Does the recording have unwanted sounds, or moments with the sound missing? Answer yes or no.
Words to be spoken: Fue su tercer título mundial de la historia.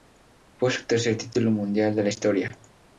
no